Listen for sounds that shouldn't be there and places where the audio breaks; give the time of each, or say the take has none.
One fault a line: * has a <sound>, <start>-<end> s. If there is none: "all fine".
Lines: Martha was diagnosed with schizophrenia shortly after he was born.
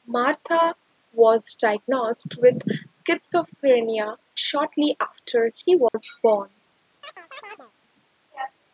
* has a dropout, 5.9-5.9 s
* has a chirp, 7.0-7.7 s